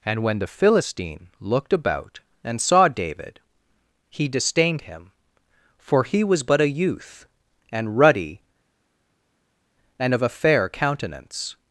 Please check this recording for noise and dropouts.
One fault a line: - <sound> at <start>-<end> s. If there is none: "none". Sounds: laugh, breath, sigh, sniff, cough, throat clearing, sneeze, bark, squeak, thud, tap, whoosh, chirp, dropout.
none